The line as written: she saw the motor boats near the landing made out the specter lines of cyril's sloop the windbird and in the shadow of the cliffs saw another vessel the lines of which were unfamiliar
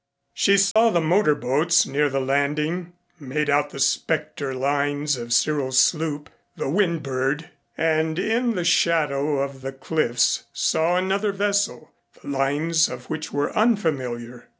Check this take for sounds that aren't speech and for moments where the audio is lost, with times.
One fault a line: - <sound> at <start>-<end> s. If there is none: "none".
- dropout at 0.7-0.8 s